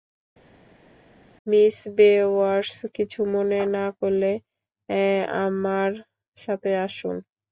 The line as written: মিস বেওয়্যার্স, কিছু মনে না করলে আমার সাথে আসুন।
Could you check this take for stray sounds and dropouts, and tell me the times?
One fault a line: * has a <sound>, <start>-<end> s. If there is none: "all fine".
all fine